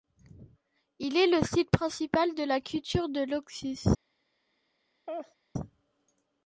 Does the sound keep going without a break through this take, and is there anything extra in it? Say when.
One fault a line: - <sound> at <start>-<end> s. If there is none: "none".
- laugh at 5.1-5.3 s